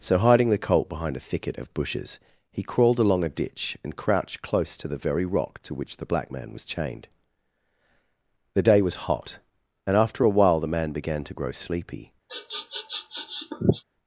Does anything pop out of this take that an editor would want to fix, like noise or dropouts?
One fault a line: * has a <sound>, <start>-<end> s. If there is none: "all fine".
* has a sniff, 12.3-13.8 s